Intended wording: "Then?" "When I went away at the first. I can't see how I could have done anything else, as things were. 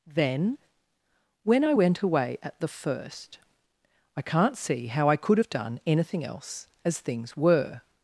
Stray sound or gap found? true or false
false